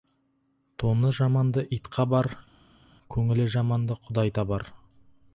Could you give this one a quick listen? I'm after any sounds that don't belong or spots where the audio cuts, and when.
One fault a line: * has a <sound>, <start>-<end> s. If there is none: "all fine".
all fine